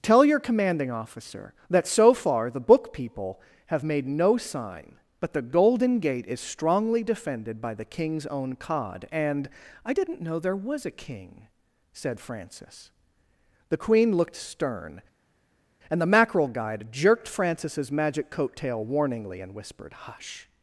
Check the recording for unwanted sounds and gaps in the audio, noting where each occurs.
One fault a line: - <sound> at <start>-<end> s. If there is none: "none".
none